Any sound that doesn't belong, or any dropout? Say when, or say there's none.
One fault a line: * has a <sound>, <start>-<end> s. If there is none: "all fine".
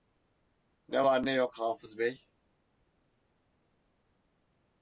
all fine